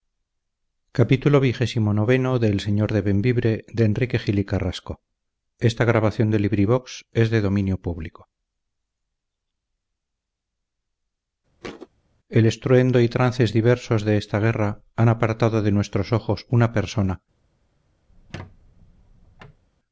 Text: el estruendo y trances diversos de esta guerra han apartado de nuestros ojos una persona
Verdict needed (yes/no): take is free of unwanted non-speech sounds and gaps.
no